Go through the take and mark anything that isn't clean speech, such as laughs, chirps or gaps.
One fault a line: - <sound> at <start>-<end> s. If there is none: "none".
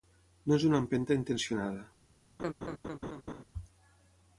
- laugh at 2.4-3.4 s